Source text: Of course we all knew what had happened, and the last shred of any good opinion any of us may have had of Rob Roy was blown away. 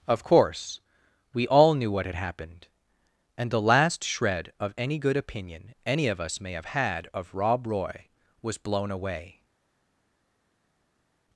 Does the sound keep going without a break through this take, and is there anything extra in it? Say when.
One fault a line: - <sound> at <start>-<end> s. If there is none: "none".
none